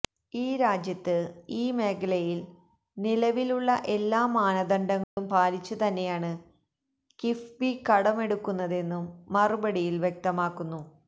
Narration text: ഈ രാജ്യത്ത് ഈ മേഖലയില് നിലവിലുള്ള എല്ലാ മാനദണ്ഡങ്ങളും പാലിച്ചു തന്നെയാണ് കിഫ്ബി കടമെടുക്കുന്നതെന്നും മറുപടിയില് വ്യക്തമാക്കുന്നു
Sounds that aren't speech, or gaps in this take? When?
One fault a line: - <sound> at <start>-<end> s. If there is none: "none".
- dropout at 5.0-5.2 s